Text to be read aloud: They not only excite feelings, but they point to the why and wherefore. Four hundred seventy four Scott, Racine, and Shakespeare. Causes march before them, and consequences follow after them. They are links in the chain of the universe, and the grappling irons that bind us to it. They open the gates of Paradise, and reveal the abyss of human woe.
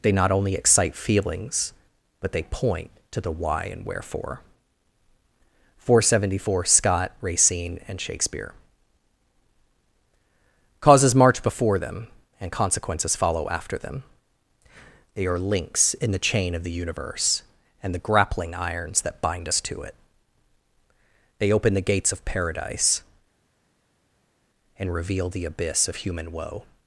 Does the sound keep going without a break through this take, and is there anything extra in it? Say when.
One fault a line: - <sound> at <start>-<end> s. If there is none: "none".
none